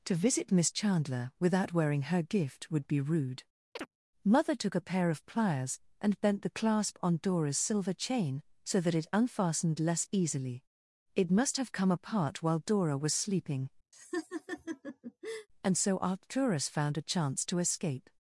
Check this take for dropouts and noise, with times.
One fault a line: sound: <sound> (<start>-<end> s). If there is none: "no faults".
sound: chirp (3.8-3.9 s)
sound: laugh (13.9-15.5 s)